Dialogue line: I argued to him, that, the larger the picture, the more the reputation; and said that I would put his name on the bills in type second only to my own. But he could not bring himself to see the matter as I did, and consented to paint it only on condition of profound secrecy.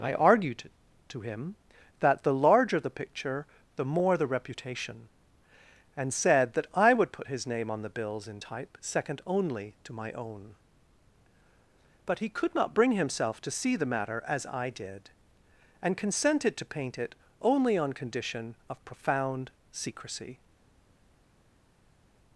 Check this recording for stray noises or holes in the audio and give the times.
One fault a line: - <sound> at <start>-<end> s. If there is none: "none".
none